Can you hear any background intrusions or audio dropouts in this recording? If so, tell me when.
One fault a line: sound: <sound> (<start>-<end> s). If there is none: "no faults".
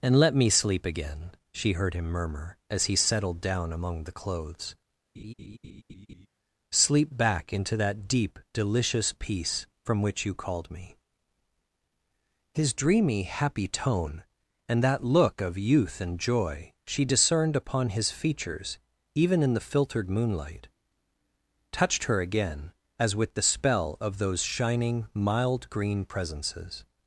sound: laugh (5.1-6.3 s)